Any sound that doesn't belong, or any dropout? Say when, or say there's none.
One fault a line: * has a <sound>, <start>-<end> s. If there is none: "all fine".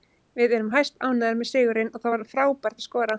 all fine